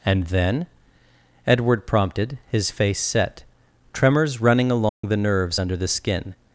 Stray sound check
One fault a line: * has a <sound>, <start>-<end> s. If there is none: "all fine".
* has a dropout, 4.9-5.0 s